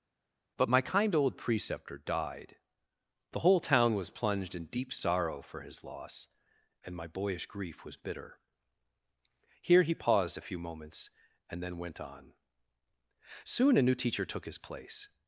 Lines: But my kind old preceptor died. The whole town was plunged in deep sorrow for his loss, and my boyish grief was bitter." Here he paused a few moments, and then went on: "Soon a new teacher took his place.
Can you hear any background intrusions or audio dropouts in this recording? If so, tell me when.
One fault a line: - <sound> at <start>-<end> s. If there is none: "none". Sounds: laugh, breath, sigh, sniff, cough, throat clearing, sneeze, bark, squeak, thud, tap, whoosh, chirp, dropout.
none